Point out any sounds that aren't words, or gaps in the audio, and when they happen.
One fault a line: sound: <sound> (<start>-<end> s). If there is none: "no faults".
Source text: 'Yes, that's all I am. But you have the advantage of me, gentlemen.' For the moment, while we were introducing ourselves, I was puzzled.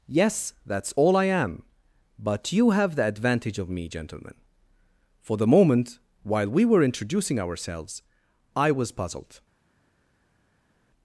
no faults